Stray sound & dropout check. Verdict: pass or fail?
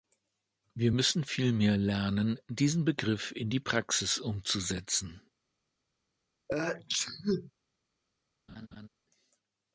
fail